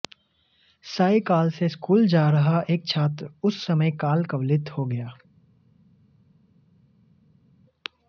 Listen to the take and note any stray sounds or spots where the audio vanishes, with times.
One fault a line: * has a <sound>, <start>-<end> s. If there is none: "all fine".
all fine